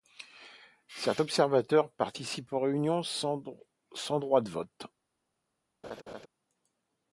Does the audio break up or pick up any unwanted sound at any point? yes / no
yes